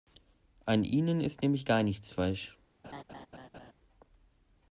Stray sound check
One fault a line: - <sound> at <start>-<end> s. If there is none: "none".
- laugh at 2.8-3.7 s